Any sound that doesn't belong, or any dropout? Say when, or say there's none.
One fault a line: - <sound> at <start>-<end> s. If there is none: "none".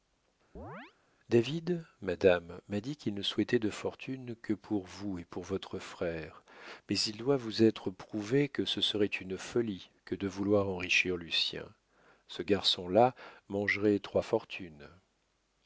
- chirp at 0.6-0.9 s